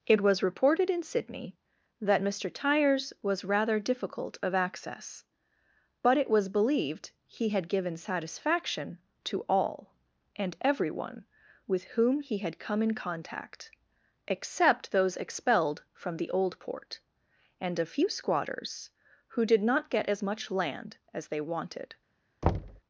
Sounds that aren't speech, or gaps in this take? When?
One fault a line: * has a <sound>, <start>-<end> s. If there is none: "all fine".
* has a thud, 22.4-22.8 s